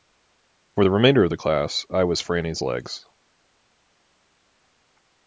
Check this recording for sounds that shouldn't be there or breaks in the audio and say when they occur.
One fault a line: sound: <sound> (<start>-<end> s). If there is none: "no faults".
no faults